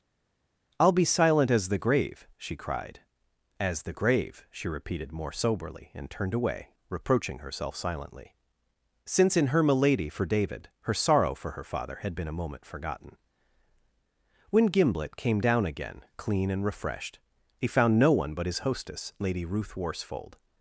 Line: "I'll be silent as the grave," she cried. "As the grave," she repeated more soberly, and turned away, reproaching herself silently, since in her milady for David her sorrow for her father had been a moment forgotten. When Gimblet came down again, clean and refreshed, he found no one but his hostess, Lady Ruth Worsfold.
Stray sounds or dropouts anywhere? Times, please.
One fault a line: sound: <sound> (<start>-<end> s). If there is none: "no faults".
no faults